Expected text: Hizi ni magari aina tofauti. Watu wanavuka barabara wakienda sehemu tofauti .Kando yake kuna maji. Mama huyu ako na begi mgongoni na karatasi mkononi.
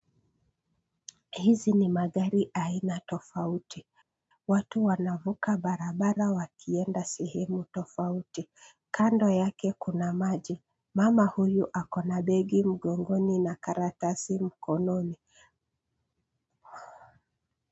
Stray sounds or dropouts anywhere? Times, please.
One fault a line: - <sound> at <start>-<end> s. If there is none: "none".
none